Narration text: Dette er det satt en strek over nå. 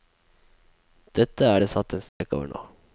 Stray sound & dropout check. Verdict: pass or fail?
fail